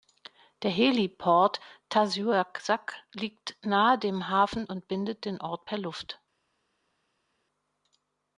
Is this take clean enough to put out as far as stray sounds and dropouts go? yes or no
yes